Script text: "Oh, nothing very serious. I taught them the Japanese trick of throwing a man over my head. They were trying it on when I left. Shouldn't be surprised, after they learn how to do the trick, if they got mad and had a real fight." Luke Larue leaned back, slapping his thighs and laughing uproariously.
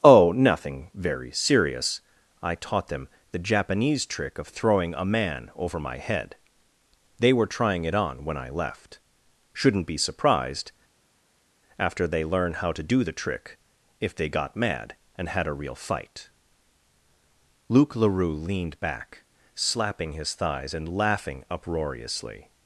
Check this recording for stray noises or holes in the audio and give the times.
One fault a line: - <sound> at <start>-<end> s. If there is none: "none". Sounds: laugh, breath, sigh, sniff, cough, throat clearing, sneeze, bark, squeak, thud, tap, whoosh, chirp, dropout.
none